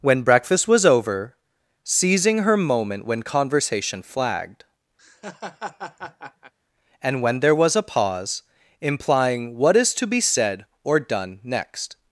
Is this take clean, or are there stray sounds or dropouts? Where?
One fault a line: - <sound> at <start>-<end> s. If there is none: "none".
- laugh at 5.0-6.5 s